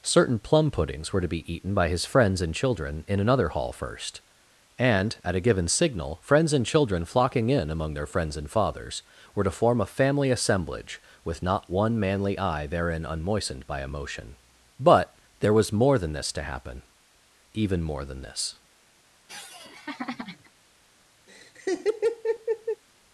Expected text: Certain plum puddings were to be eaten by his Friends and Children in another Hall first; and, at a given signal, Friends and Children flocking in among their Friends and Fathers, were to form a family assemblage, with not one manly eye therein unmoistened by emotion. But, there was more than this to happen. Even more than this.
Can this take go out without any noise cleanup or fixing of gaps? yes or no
no